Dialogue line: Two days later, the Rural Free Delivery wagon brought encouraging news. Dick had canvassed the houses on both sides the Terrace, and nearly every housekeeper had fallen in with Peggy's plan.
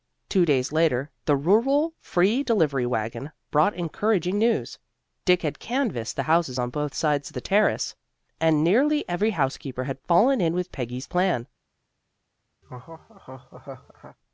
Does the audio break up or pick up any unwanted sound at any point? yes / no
yes